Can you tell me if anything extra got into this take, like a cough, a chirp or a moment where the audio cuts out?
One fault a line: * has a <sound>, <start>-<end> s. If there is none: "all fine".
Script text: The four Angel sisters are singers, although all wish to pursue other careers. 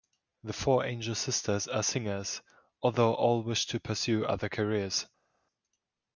all fine